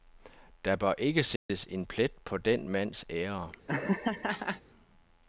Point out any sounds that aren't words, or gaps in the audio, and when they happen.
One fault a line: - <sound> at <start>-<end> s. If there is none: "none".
- dropout at 1.4-1.5 s
- laugh at 3.7-4.6 s